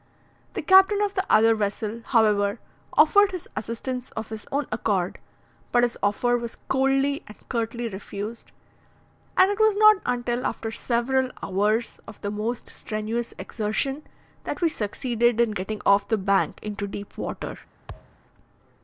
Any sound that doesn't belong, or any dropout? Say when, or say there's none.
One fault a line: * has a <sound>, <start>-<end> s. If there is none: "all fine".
* has a thud, 17.9-18.2 s